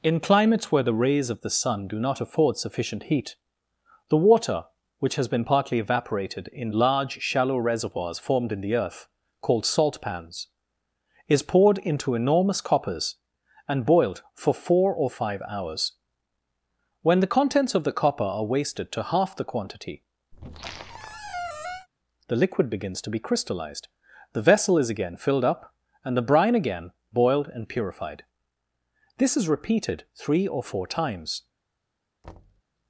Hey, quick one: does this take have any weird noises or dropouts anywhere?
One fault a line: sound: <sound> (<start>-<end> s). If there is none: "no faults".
sound: squeak (20.3-21.9 s)
sound: thud (32.2-32.6 s)